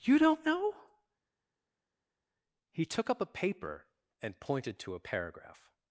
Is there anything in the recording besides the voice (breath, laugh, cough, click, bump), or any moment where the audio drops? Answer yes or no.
no